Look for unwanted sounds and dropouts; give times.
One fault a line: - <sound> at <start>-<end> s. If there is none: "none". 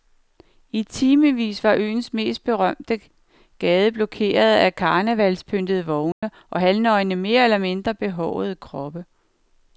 - dropout at 6.1-6.2 s